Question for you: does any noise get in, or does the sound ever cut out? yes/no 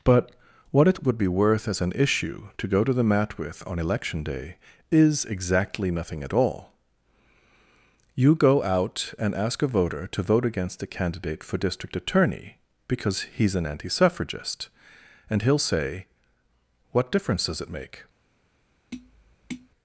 yes